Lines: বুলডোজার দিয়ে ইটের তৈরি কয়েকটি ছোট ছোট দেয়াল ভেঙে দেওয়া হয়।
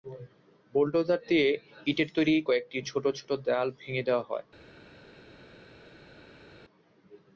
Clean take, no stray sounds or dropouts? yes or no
yes